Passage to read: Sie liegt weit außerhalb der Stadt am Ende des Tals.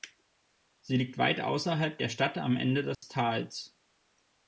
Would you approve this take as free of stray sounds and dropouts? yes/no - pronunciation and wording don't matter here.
no